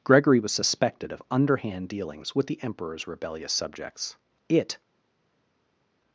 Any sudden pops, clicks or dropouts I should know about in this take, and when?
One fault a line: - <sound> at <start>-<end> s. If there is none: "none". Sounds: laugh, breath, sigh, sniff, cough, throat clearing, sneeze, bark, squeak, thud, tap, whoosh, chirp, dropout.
none